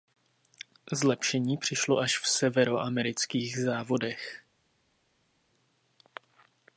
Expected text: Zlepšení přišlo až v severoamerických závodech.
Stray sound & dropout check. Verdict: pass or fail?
pass